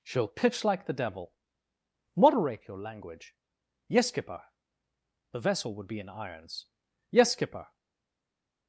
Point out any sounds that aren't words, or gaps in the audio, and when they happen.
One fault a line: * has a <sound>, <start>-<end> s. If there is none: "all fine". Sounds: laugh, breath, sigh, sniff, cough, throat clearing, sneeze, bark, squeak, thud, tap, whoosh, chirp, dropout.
all fine